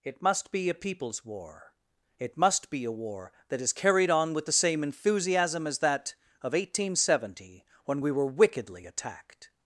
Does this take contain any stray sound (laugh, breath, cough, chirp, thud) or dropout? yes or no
no